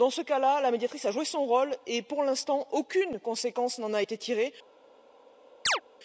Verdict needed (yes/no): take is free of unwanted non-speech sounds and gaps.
no